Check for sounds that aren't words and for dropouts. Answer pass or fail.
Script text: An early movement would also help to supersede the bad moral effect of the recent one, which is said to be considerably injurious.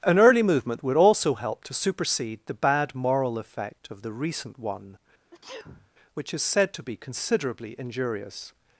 fail